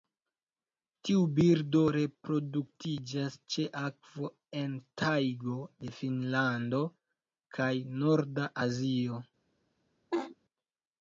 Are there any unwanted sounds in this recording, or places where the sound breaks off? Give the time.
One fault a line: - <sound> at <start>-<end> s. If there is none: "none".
- laugh at 10.1-10.4 s